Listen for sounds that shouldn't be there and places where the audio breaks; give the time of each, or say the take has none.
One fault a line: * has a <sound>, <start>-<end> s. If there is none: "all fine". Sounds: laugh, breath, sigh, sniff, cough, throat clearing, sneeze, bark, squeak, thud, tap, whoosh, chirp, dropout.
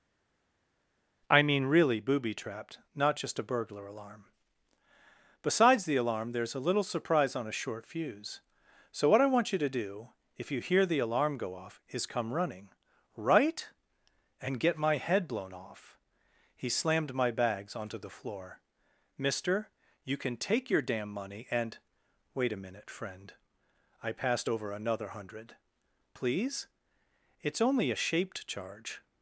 all fine